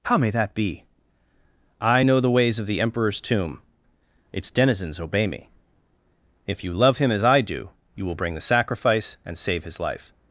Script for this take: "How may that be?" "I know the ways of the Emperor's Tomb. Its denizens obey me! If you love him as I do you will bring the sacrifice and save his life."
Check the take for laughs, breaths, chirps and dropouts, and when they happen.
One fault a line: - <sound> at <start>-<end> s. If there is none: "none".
none